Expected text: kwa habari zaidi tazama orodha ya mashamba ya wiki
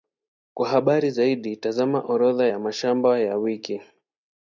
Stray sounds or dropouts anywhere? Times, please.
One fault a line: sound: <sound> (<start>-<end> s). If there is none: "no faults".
no faults